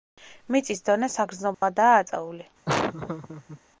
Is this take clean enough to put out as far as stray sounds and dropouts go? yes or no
no